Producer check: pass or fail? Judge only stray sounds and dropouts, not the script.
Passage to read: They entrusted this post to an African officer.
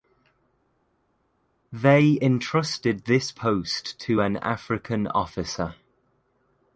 pass